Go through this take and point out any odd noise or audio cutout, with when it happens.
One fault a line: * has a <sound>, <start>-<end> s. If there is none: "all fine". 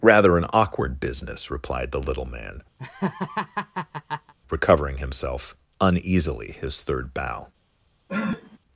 * has a laugh, 2.8-4.3 s
* has a sniff, 8.1-8.6 s